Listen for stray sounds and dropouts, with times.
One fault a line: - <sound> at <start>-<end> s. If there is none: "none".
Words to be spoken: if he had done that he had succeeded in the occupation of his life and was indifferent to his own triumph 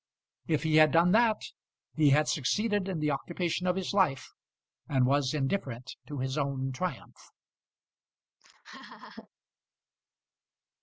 - laugh at 8.4-9.3 s